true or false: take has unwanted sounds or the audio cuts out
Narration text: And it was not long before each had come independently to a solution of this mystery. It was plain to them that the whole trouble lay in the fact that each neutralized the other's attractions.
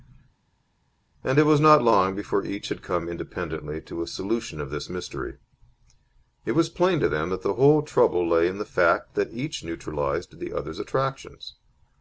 false